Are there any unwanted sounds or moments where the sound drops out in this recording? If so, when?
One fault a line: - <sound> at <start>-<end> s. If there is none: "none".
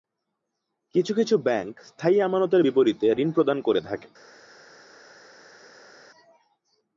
none